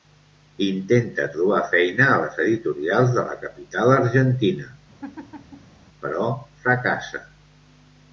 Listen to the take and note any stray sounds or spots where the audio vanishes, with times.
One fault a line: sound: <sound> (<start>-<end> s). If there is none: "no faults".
sound: laugh (5.0-5.8 s)